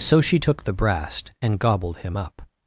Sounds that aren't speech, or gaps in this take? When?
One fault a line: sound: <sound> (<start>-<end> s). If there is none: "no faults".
no faults